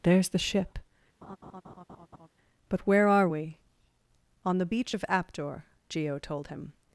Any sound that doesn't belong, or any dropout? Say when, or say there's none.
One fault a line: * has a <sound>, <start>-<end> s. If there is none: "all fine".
* has a laugh, 1.2-2.3 s